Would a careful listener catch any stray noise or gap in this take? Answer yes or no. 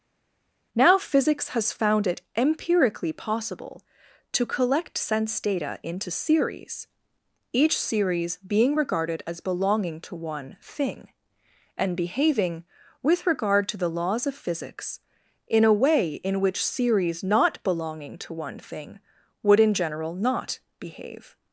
no